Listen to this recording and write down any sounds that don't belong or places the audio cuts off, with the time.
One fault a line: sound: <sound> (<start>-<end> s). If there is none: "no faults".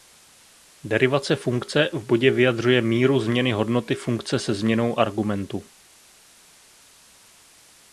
no faults